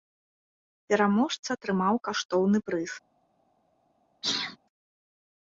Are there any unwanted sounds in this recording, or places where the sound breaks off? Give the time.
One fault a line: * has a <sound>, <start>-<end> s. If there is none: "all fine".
* has a sneeze, 4.2-4.6 s